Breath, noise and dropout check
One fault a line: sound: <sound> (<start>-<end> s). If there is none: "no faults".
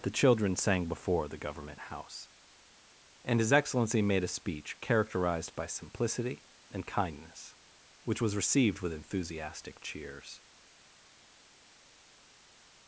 no faults